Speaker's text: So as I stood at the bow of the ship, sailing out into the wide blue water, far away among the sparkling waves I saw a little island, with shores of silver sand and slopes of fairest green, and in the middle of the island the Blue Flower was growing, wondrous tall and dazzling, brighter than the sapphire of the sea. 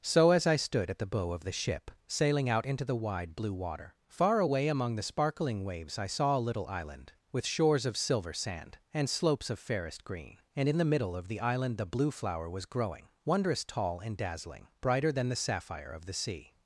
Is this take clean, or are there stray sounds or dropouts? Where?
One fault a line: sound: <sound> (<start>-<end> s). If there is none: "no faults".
no faults